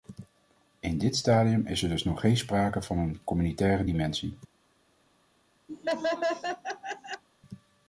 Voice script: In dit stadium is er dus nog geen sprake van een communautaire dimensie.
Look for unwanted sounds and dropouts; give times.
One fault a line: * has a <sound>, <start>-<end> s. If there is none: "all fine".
* has a laugh, 5.7-7.2 s